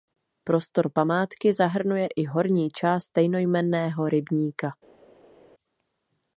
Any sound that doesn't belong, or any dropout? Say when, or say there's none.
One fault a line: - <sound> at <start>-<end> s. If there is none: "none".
none